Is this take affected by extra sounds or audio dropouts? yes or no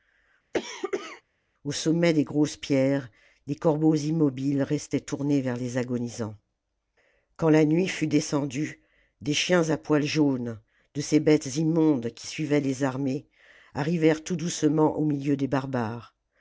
yes